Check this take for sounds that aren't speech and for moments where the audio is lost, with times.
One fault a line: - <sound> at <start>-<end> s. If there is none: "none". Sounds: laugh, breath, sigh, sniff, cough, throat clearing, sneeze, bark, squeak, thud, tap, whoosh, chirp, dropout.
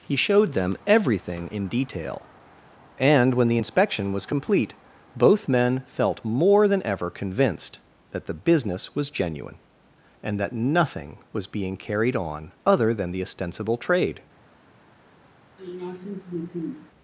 - sniff at 15.6-16.9 s